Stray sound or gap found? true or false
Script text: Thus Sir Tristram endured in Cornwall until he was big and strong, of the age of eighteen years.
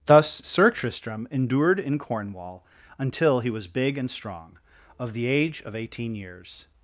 false